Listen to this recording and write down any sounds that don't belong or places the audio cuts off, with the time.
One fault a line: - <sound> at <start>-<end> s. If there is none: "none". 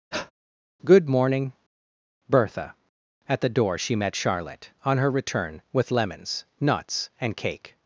- breath at 0.1-0.3 s